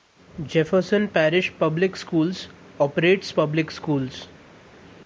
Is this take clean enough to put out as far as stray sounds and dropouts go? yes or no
yes